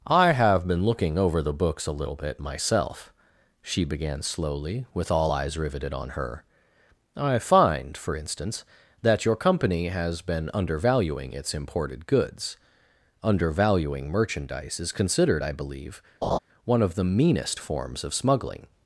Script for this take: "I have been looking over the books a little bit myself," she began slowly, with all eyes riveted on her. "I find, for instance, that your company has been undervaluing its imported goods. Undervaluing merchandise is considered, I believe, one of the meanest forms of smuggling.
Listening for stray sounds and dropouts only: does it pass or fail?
fail